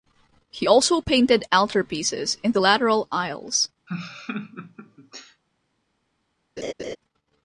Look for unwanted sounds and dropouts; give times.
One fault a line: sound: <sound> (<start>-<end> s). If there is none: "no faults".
sound: laugh (3.9-5.4 s)
sound: laugh (6.6-7.0 s)